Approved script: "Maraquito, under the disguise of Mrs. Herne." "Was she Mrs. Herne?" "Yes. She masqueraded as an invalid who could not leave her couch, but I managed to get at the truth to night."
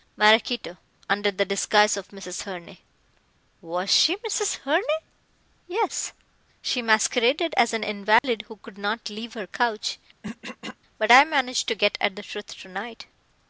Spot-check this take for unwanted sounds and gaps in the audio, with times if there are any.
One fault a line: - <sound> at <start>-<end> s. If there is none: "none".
- dropout at 8.2-8.2 s
- throat clearing at 10.2-10.8 s